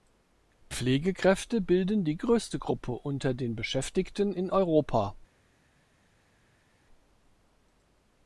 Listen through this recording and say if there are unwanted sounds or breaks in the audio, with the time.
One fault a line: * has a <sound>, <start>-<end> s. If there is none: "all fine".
all fine